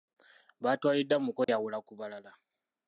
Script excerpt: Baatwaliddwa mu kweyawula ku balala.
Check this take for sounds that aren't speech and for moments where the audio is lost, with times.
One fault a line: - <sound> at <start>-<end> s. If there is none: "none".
- dropout at 1.4-1.5 s